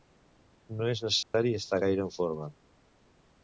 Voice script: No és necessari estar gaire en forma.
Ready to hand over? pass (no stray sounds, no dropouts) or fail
fail